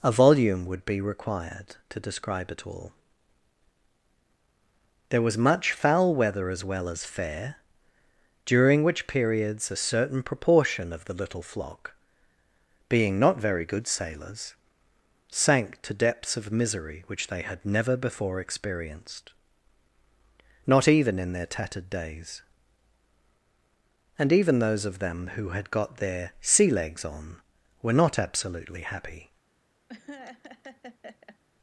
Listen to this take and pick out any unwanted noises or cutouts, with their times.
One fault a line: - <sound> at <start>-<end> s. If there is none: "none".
- laugh at 29.9-31.4 s